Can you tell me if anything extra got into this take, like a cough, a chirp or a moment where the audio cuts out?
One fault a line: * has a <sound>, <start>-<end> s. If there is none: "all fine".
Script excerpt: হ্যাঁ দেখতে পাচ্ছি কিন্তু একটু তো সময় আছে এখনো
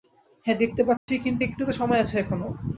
* has a dropout, 1.0-1.1 s